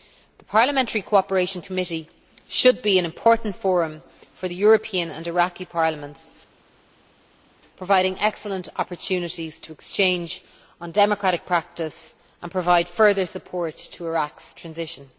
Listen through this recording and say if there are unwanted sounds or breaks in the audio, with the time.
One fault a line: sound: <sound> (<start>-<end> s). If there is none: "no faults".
no faults